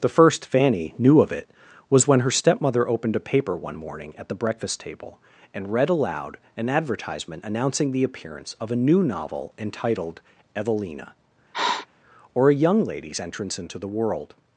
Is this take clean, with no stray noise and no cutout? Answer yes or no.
no